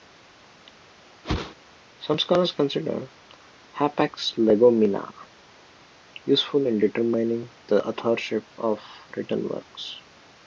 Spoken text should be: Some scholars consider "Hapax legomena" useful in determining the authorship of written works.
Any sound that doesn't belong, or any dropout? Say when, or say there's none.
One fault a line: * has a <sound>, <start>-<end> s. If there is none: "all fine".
* has a whoosh, 1.2-1.5 s